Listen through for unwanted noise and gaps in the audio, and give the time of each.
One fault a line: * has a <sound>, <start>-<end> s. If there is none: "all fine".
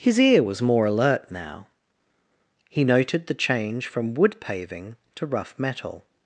all fine